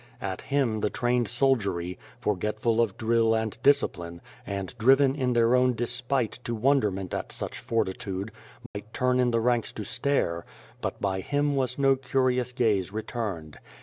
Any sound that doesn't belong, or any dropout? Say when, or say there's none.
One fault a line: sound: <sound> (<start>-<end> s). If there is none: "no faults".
sound: dropout (8.7-8.7 s)